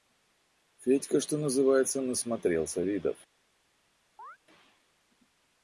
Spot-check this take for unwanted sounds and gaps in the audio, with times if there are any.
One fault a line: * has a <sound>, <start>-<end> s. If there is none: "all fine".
* has a chirp, 4.2-4.4 s